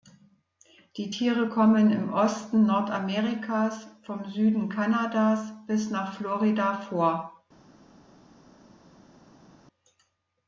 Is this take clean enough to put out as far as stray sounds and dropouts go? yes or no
yes